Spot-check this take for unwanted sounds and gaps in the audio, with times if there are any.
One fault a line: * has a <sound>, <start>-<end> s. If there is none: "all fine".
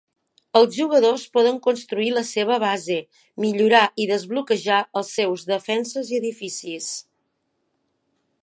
all fine